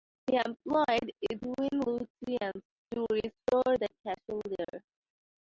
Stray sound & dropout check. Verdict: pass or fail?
fail